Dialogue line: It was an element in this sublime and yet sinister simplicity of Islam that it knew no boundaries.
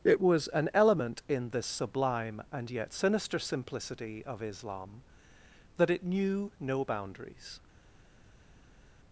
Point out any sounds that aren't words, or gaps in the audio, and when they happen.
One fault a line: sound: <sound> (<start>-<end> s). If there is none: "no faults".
no faults